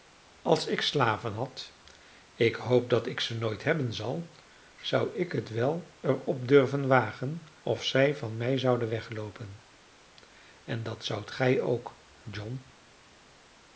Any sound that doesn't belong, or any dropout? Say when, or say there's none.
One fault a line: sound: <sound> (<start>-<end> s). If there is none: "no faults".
no faults